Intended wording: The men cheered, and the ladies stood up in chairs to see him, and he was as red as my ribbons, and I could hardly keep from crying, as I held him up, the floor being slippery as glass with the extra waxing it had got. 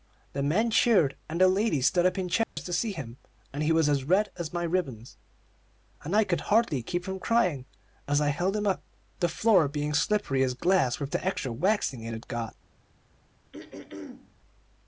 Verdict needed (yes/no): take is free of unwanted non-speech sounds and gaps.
no